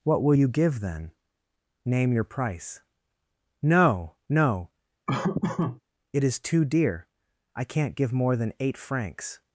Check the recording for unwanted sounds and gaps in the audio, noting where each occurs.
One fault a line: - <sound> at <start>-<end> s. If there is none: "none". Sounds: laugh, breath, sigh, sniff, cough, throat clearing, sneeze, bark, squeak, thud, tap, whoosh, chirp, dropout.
- laugh at 5.1-5.8 s